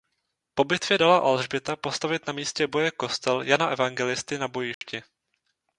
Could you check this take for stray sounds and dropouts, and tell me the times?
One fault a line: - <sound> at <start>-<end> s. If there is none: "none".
- dropout at 4.7-4.8 s